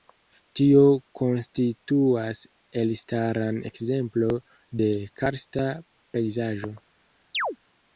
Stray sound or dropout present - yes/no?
yes